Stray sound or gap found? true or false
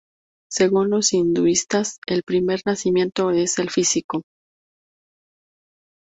false